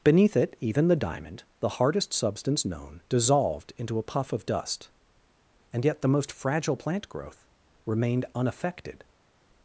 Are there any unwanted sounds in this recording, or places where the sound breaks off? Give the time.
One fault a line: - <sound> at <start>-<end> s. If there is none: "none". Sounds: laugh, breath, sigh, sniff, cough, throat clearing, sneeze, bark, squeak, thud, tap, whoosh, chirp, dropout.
none